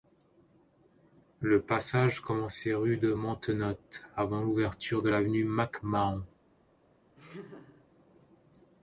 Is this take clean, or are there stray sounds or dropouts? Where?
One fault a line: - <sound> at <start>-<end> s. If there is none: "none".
- laugh at 7.2-7.9 s